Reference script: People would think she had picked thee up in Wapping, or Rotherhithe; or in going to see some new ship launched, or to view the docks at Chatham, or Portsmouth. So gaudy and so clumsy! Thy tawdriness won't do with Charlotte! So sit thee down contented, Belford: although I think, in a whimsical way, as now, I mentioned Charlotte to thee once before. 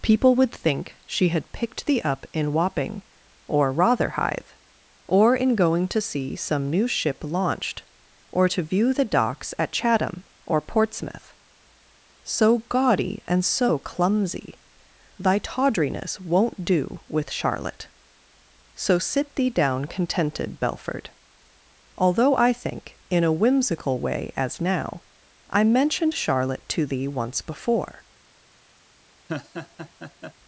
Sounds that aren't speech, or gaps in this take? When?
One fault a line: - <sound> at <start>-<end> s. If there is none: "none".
- laugh at 29.3-30.3 s